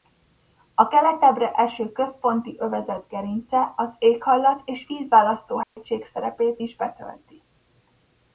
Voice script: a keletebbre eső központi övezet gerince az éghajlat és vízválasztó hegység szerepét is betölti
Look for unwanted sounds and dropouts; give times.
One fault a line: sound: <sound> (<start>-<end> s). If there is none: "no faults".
sound: dropout (5.6-5.8 s)